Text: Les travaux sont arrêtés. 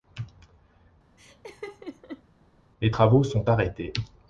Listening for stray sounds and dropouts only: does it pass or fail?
fail